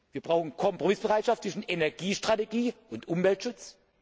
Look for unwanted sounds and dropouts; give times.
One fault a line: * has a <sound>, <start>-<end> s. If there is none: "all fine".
all fine